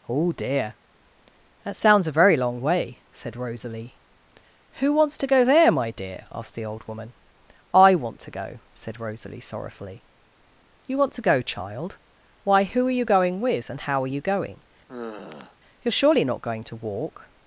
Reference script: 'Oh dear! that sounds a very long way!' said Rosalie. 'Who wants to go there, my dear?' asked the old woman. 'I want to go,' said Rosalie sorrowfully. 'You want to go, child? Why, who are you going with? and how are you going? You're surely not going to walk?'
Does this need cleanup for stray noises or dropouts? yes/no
yes